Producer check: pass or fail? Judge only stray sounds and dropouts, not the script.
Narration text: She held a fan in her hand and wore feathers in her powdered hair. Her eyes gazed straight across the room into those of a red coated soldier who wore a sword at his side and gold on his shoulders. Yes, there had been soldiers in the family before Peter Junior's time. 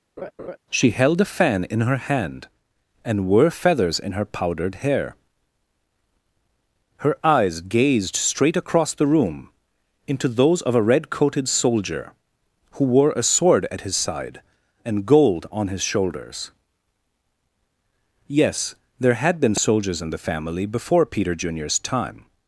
fail